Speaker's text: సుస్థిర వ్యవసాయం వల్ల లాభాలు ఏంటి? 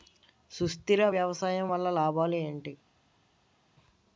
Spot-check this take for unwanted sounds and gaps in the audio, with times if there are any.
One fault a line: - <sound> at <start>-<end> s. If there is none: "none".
none